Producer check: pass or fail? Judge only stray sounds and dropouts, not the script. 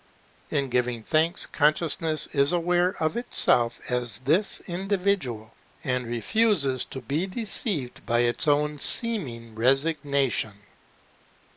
pass